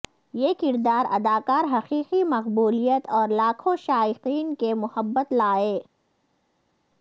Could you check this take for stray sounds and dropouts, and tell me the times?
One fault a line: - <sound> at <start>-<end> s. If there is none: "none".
none